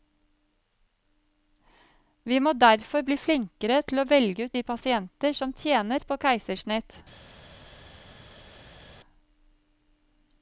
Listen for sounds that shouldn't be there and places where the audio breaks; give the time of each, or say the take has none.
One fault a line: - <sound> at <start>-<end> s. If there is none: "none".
none